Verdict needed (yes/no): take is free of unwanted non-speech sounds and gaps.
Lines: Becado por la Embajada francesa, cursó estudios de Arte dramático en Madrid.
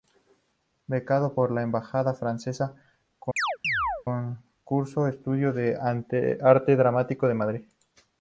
no